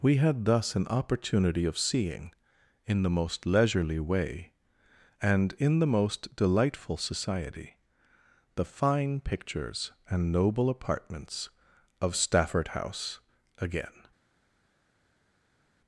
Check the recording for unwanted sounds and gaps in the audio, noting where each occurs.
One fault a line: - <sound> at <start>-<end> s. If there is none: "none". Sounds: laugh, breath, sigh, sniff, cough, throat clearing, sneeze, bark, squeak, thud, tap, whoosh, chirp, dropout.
none